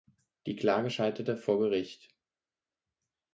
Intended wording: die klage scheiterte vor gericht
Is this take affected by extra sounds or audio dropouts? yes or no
no